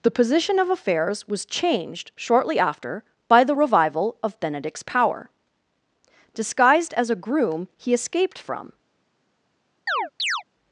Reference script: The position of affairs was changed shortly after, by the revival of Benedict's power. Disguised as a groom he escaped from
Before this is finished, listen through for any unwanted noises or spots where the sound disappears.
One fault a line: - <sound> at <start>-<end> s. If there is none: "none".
- chirp at 9.9-10.4 s